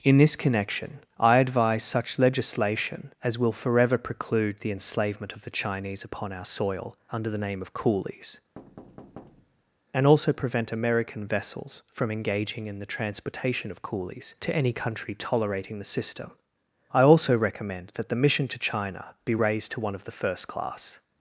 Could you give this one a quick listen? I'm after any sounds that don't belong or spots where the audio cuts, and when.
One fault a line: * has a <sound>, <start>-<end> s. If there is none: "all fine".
* has a thud, 8.6-9.8 s